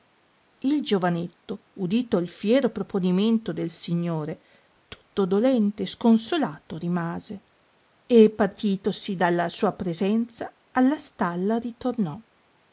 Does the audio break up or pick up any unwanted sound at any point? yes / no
no